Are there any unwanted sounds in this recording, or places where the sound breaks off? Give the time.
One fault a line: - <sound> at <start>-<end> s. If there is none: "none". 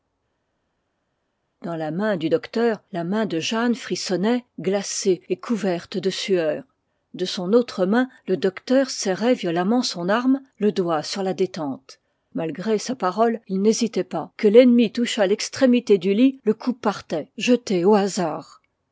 none